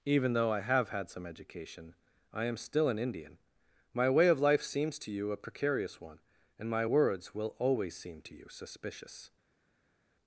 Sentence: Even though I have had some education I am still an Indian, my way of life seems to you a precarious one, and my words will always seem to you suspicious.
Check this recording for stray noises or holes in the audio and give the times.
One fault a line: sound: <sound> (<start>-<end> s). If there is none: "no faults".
no faults